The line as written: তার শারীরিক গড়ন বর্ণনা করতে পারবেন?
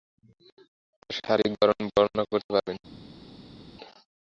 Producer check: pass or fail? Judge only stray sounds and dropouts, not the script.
pass